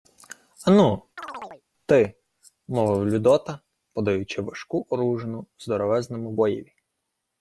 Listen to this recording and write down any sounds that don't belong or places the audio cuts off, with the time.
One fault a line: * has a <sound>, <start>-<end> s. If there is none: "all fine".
* has a chirp, 1.2-1.6 s